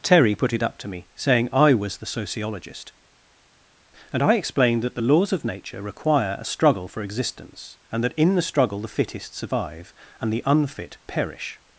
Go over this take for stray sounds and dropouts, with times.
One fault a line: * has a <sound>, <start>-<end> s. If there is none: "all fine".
all fine